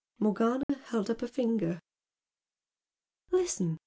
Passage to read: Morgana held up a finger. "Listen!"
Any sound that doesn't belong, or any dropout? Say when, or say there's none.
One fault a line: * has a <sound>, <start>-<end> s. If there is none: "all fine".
* has a dropout, 0.6-0.7 s